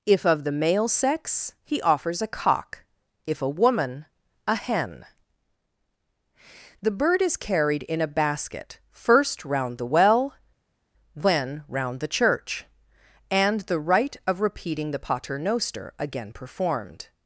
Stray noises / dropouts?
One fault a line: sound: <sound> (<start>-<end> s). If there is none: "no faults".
no faults